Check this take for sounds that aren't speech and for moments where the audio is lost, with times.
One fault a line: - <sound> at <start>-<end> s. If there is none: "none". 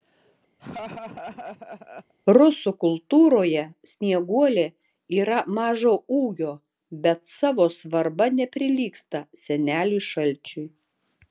- laugh at 0.6-2.1 s